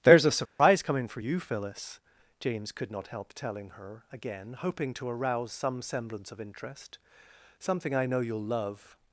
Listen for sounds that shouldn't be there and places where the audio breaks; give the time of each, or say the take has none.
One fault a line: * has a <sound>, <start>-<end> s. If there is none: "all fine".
* has a dropout, 0.5-0.6 s